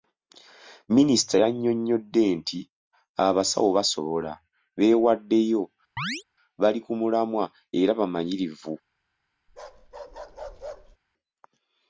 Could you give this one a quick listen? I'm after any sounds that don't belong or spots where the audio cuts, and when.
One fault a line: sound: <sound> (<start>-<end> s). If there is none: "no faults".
sound: chirp (6.0-6.2 s)
sound: bark (9.5-11.0 s)